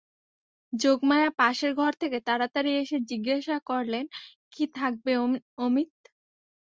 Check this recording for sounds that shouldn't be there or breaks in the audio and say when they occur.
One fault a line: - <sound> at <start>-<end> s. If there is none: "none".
none